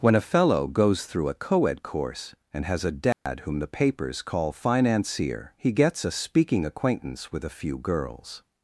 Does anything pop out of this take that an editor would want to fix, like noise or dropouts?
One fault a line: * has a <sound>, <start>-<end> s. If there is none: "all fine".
* has a dropout, 3.1-3.3 s